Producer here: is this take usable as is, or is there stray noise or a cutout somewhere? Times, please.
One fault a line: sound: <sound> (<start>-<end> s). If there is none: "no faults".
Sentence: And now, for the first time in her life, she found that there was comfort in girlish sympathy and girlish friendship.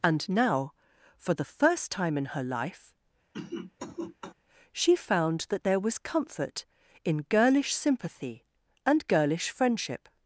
sound: cough (3.3-4.3 s)